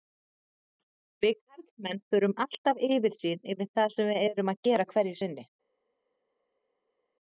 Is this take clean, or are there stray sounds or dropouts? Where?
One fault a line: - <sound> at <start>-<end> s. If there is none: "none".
none